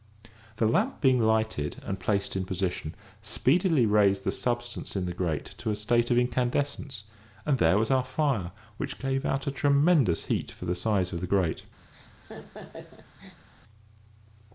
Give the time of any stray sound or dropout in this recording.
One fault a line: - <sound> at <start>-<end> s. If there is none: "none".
- laugh at 11.9-13.5 s